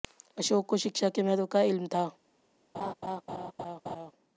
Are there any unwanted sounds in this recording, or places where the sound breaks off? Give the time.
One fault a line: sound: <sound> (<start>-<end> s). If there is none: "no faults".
sound: laugh (2.7-4.1 s)